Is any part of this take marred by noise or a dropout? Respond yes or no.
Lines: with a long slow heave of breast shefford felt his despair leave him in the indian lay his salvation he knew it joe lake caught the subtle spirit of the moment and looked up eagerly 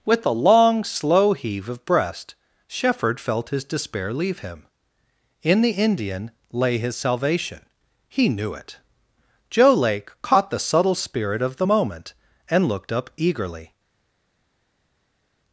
no